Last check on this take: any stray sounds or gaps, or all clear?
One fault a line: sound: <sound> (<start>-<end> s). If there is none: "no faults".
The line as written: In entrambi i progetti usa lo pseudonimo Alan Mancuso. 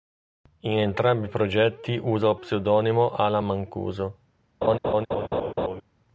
sound: laugh (4.6-5.8 s)